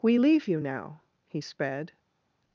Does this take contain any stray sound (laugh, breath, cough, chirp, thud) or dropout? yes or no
no